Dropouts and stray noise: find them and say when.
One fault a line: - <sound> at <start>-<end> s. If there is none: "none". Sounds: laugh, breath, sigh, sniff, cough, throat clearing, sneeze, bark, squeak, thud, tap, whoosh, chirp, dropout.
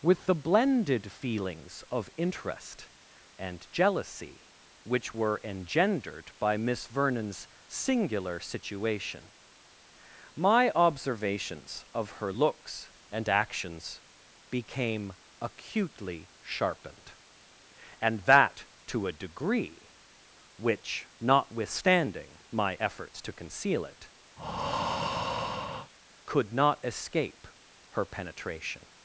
- breath at 24.4-25.9 s